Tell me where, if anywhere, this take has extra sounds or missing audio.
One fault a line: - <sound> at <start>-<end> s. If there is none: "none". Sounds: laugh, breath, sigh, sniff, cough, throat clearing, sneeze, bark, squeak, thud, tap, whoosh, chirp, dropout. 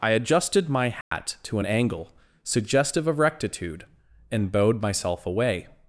- dropout at 1.0-1.1 s